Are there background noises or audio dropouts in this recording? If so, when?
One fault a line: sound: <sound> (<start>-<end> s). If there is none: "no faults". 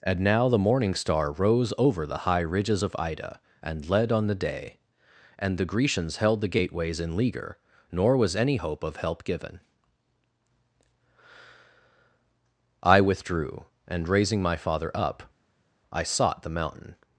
no faults